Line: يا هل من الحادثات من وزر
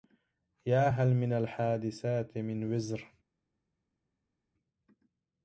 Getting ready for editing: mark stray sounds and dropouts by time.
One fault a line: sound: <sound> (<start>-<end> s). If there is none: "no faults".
no faults